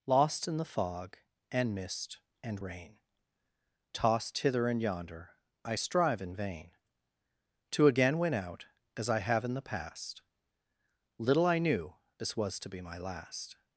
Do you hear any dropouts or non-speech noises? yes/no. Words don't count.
no